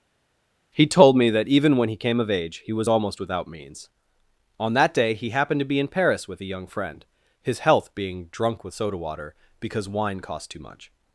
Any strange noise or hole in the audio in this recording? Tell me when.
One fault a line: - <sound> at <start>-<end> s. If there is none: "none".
none